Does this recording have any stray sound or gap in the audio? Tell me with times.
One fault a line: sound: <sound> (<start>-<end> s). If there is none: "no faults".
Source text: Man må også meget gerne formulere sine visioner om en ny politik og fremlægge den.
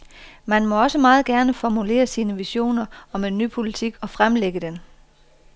no faults